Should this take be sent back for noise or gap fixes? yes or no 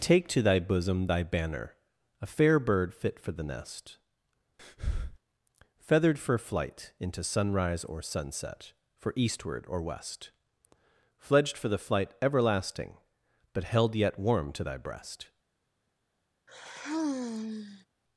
yes